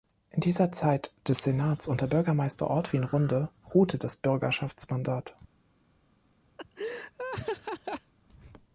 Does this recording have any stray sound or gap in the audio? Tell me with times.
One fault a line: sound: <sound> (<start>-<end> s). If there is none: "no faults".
sound: laugh (6.6-8.1 s)